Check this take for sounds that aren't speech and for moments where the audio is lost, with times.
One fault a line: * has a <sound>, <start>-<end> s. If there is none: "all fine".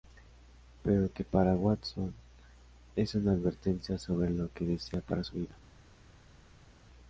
all fine